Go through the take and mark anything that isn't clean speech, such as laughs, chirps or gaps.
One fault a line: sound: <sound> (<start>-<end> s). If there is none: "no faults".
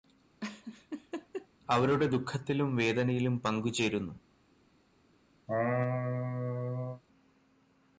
sound: laugh (0.4-1.5 s)
sound: laugh (5.5-7.0 s)